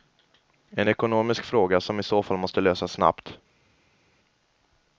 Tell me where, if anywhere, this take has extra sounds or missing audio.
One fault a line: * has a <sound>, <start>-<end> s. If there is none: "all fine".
all fine